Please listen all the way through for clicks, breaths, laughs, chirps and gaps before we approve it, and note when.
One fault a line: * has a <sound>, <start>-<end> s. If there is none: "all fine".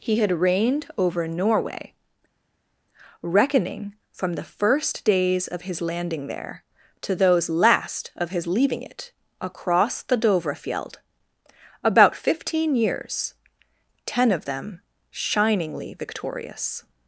all fine